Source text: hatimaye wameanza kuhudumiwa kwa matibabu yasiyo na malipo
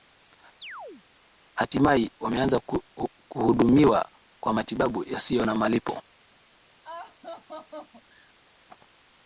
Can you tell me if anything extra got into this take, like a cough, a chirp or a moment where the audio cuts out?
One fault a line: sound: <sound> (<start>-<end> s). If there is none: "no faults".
sound: chirp (0.6-1.1 s)
sound: laugh (6.8-8.3 s)